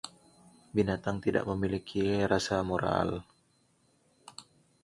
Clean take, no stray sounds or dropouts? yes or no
yes